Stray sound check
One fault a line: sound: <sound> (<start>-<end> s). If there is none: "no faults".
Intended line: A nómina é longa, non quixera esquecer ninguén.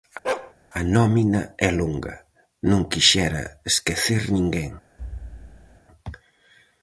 sound: bark (0.2-0.5 s)
sound: thud (5.0-5.8 s)